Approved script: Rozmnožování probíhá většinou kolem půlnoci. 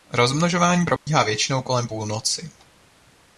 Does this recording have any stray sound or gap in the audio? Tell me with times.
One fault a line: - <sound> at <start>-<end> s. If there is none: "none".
- dropout at 1.0-1.1 s